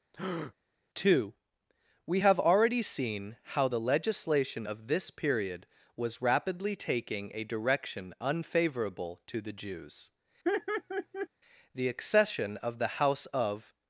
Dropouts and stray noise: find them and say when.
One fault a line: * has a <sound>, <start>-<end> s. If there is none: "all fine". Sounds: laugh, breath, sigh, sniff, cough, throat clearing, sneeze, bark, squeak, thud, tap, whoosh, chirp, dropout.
* has a breath, 0.1-0.5 s
* has a laugh, 10.4-11.3 s